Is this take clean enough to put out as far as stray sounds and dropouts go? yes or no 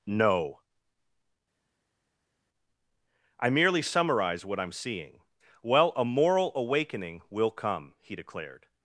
yes